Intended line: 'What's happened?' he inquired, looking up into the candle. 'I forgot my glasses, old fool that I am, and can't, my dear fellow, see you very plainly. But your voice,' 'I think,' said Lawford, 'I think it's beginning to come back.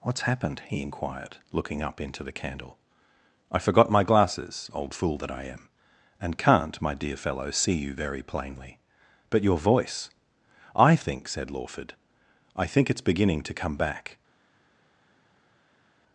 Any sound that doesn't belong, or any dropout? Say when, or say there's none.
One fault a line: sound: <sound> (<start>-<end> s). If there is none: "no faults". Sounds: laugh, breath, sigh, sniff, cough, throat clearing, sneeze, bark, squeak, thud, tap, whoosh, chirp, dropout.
no faults